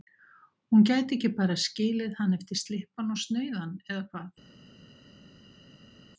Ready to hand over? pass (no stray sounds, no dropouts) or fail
pass